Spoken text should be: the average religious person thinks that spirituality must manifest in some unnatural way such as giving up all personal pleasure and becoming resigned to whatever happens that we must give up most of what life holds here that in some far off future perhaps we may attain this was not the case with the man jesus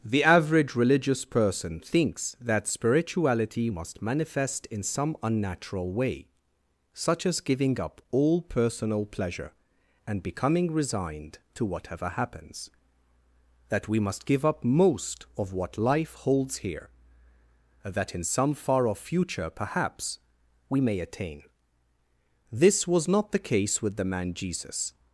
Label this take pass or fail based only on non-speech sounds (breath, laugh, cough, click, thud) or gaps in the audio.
pass